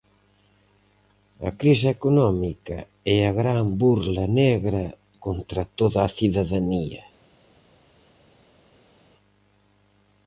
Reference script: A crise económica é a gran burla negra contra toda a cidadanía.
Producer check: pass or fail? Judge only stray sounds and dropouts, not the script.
pass